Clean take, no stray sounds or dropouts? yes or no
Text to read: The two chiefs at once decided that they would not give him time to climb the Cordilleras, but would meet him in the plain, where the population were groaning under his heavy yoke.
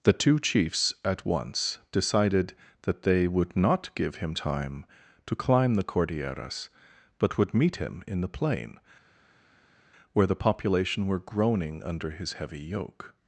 yes